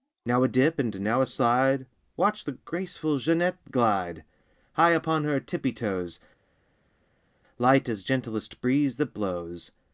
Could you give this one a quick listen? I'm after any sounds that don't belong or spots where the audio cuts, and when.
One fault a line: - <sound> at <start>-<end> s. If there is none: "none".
none